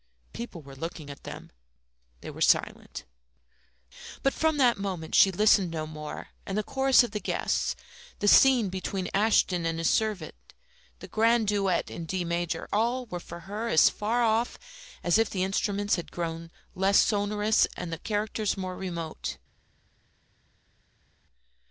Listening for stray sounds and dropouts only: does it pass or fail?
pass